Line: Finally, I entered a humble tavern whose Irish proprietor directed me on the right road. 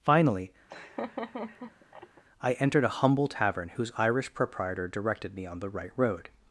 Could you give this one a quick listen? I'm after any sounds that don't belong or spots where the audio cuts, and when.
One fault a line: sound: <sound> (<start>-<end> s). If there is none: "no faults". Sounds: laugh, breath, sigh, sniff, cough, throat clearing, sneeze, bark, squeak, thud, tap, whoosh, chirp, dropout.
sound: laugh (0.7-2.2 s)